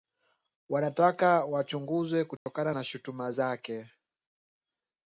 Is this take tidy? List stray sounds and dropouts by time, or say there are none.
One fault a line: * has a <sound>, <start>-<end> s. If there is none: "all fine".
* has a dropout, 2.4-2.5 s